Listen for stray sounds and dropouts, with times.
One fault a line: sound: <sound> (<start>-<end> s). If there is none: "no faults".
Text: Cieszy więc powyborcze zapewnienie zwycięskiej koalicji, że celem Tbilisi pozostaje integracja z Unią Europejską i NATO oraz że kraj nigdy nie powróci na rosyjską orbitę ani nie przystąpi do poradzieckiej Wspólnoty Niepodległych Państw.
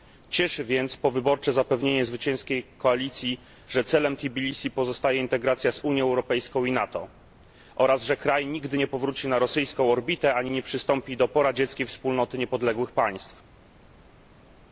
no faults